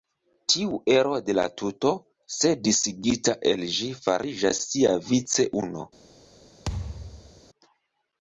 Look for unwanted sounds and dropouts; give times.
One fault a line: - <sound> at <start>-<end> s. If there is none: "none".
- thud at 6.7-7.4 s